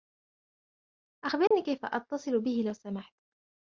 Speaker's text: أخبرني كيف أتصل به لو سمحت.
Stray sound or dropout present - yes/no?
yes